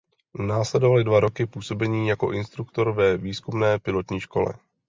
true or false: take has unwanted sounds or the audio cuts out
false